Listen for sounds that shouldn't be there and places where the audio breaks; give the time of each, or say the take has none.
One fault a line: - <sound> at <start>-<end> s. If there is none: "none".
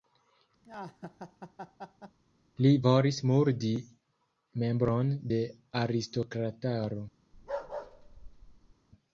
- laugh at 0.6-2.2 s
- bark at 7.3-8.7 s